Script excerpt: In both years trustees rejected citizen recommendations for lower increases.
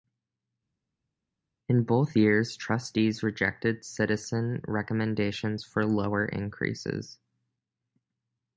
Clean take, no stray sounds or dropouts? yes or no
yes